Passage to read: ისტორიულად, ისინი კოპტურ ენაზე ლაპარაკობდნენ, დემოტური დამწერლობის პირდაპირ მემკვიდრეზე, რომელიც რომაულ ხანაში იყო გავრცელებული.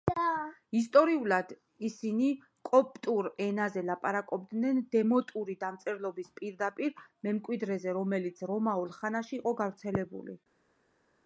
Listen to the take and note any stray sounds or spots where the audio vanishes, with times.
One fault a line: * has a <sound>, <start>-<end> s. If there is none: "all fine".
all fine